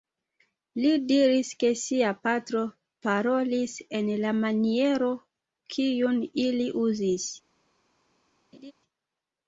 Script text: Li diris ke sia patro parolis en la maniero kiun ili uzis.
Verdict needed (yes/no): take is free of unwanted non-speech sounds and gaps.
no